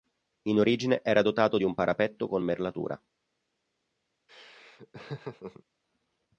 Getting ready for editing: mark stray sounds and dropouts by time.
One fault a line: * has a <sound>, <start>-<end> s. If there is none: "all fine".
* has a laugh, 4.3-5.6 s